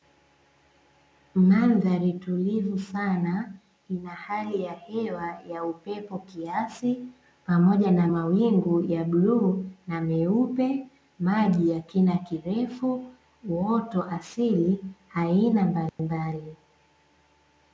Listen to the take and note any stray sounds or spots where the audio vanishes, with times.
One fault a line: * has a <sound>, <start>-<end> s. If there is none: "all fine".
* has a dropout, 15.9-16.0 s